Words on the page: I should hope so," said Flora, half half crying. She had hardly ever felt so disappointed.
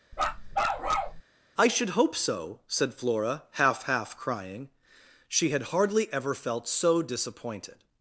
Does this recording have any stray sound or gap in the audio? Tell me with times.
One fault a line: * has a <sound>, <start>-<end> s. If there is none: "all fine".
* has a bark, 0.1-1.2 s